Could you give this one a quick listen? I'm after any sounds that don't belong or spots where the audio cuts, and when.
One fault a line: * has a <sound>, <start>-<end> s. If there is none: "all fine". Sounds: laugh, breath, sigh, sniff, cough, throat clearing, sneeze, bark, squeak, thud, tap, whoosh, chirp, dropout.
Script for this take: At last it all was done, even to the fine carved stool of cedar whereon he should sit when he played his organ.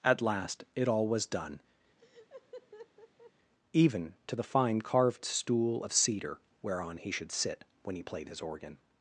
* has a laugh, 2.0-3.3 s